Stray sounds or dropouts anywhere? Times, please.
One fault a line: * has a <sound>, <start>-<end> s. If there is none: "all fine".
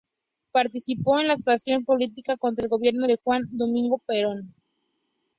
all fine